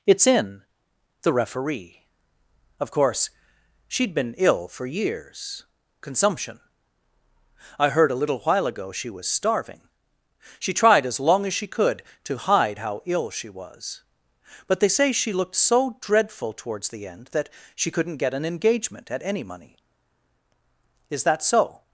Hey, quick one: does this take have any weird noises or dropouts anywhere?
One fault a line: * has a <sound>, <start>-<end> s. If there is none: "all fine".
all fine